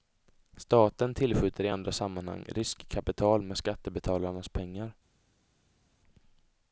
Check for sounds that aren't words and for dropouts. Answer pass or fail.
pass